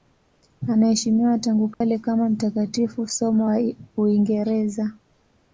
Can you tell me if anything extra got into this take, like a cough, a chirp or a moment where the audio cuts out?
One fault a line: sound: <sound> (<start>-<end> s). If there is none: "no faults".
sound: dropout (1.7-1.8 s)